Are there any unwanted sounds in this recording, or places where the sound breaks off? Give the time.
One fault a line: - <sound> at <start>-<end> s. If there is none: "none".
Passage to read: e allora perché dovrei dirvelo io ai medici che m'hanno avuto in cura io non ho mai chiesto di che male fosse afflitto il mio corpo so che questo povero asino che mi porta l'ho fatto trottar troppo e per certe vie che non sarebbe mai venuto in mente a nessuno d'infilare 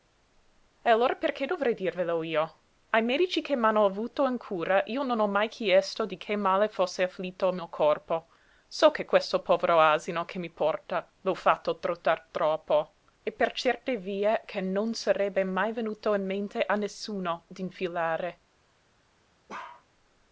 - bark at 19.5-19.9 s